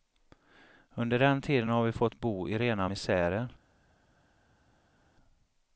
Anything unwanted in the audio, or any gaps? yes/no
no